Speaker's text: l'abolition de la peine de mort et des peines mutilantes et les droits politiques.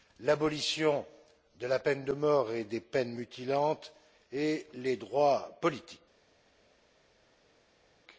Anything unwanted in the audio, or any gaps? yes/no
no